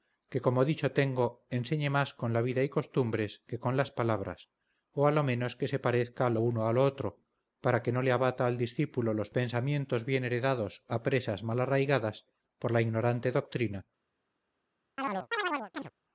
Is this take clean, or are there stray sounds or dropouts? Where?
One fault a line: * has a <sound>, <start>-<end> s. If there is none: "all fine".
* has a chirp, 15.0-15.9 s